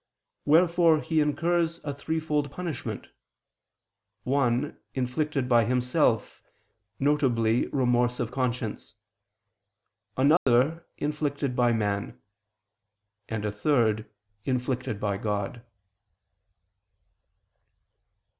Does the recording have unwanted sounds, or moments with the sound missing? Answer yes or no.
yes